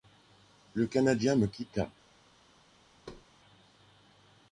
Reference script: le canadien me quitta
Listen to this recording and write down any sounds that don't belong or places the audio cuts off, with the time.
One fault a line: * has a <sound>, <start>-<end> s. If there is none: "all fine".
* has a thud, 3.1-3.3 s